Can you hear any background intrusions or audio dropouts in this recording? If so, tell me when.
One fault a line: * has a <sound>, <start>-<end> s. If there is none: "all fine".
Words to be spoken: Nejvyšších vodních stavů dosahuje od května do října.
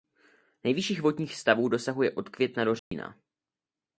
* has a dropout, 2.8-2.9 s